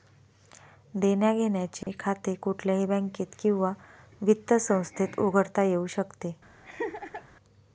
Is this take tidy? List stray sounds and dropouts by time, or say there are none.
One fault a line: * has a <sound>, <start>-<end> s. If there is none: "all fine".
* has a dropout, 1.8-1.9 s
* has a laugh, 6.6-7.2 s